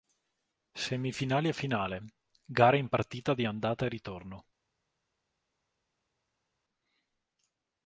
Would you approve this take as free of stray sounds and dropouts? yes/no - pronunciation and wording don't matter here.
yes